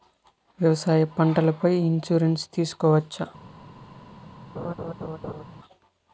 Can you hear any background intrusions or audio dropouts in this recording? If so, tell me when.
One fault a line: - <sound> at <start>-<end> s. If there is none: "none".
- laugh at 4.6-5.4 s